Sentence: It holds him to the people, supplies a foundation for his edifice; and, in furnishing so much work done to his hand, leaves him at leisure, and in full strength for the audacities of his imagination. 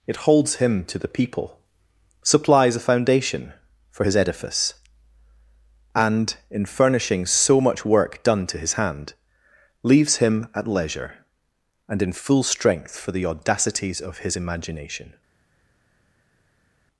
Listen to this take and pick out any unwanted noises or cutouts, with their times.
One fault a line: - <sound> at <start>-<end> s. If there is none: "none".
none